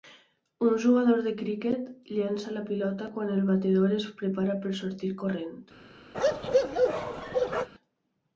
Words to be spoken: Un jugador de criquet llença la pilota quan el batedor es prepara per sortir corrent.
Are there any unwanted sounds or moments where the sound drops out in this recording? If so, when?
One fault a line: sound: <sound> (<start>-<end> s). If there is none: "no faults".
sound: bark (6.1-7.7 s)